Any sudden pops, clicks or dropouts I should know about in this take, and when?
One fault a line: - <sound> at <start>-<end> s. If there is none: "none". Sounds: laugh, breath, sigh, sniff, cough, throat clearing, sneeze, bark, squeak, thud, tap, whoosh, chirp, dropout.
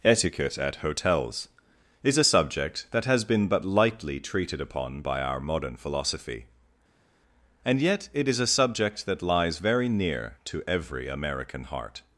none